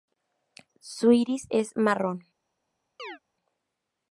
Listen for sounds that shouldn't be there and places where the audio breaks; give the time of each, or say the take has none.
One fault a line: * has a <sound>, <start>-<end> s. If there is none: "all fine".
* has a chirp, 3.0-3.2 s